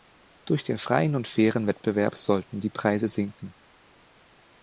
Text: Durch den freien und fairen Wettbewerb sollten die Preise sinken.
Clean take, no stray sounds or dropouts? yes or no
yes